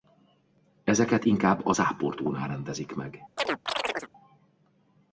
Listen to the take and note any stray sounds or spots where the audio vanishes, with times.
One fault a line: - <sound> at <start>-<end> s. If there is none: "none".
- chirp at 3.4-4.1 s